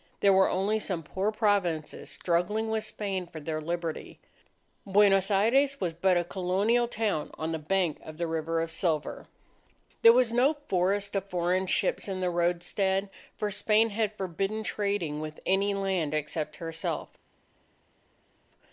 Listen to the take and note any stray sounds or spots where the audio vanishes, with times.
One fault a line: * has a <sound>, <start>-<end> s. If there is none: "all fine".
all fine